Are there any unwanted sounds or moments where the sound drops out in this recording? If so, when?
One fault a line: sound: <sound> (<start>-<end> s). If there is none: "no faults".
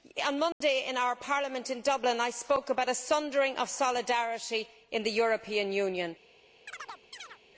sound: dropout (0.5-0.6 s)
sound: chirp (6.7-7.4 s)